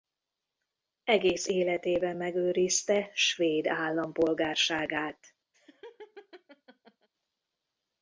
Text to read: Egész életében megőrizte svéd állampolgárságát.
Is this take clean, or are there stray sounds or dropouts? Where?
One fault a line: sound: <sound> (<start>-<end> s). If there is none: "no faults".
sound: laugh (5.5-7.1 s)